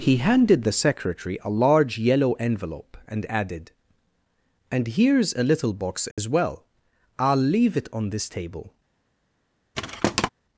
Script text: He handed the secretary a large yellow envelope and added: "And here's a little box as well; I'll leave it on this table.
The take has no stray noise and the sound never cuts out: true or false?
false